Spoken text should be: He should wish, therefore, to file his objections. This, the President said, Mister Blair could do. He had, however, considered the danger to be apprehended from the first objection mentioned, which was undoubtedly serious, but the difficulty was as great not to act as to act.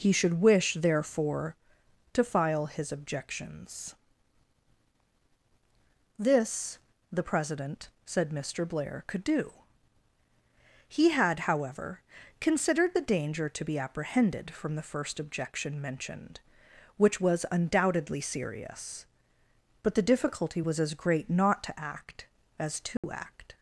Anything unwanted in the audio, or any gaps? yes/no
yes